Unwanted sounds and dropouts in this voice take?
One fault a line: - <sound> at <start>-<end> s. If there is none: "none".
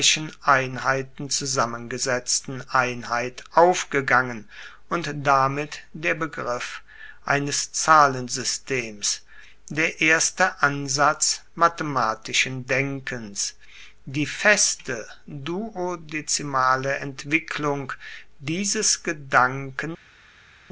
none